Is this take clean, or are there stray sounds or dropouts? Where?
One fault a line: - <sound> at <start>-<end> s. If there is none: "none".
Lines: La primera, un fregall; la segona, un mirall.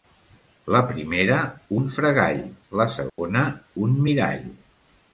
- dropout at 3.1-3.2 s